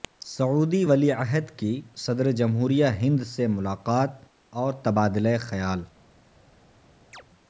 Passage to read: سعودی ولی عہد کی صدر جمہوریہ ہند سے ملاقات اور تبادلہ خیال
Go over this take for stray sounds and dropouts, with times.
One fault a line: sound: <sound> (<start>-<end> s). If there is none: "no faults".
sound: chirp (7.1-7.2 s)